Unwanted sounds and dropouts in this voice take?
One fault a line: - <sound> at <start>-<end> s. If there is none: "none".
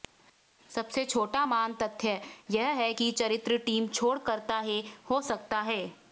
none